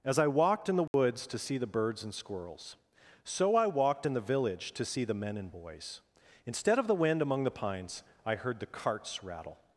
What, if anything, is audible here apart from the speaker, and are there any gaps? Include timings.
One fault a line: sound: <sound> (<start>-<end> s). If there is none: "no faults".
sound: dropout (0.9-0.9 s)